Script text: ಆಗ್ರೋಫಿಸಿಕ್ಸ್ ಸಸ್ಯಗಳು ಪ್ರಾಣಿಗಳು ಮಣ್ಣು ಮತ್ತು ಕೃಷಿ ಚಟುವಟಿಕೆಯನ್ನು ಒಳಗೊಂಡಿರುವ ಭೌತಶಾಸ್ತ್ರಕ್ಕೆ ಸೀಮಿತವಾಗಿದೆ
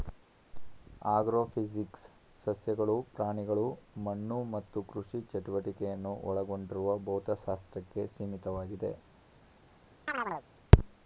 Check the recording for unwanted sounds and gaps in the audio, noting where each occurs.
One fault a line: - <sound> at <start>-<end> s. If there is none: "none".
- chirp at 10.1-10.5 s